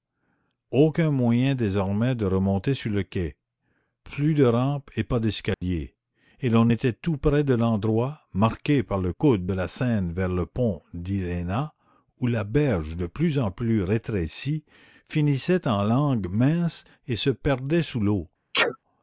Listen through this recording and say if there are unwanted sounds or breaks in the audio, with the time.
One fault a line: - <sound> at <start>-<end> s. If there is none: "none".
- dropout at 5.5-5.6 s
- sneeze at 18.5-18.8 s